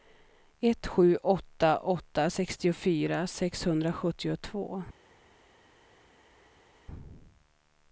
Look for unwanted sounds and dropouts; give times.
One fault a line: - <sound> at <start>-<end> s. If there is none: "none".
none